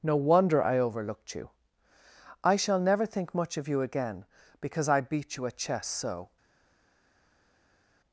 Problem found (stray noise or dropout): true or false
false